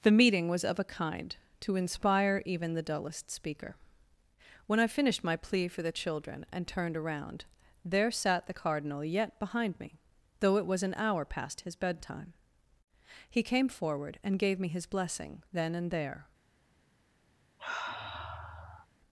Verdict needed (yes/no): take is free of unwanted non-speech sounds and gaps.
no